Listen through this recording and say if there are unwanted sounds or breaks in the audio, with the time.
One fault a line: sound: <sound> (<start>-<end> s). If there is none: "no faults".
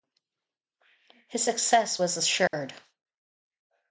sound: dropout (2.5-2.5 s)